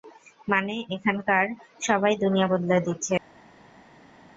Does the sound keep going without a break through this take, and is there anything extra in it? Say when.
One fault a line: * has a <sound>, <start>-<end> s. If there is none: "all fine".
all fine